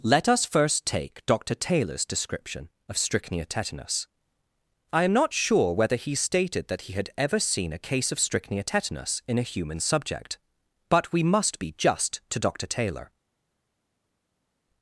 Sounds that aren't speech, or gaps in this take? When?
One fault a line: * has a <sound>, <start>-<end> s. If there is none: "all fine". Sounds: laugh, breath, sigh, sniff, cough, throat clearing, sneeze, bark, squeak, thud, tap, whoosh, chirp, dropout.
all fine